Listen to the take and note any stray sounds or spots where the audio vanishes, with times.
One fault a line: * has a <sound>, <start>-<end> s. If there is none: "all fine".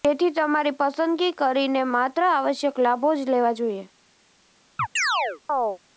* has a chirp, 4.8-5.8 s